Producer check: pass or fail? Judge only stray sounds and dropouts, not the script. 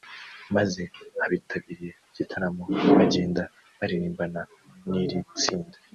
pass